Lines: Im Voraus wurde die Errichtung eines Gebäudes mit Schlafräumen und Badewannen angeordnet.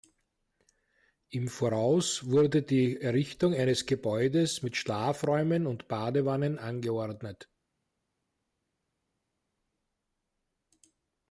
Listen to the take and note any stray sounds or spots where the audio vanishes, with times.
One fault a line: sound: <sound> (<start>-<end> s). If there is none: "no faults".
no faults